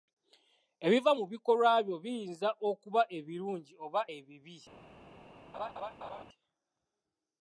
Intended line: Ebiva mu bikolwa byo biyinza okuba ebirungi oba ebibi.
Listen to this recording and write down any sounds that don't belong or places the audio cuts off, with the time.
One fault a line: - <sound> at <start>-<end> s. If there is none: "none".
- laugh at 5.5-6.2 s